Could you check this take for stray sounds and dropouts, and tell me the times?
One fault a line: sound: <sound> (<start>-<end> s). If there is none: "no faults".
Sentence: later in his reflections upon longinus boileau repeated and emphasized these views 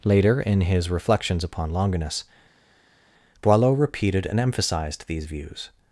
no faults